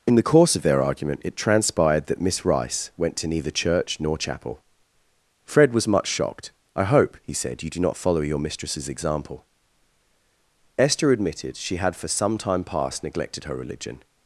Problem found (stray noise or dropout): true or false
false